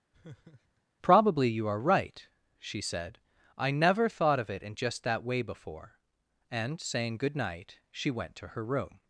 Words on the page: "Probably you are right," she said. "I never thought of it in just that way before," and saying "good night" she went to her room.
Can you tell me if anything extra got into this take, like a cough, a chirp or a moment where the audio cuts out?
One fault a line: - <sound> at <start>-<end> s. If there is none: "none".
- laugh at 0.1-0.8 s